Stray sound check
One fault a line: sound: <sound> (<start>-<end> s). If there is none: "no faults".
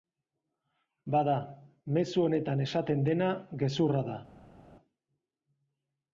no faults